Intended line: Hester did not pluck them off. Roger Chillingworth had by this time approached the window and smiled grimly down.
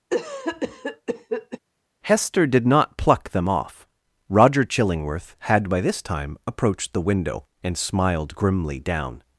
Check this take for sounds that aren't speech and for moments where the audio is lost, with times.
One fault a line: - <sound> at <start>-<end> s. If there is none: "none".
- cough at 0.1-1.6 s